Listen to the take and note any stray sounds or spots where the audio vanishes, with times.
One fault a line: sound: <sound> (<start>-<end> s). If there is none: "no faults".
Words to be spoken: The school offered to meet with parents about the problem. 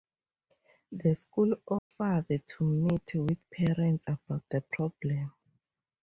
sound: dropout (1.8-1.9 s)